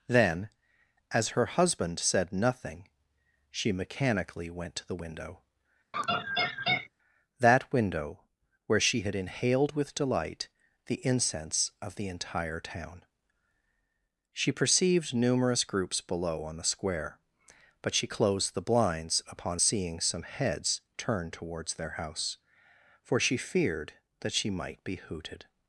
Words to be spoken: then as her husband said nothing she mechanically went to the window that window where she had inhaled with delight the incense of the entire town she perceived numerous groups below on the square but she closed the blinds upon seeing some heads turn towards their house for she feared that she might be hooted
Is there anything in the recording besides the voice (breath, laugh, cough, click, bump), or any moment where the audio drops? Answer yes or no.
yes